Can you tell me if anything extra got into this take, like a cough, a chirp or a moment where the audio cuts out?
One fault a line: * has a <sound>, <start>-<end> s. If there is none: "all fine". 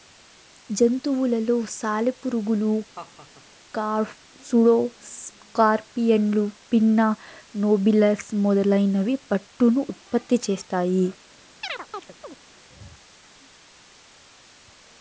* has a laugh, 2.9-3.5 s
* has a chirp, 11.6-12.4 s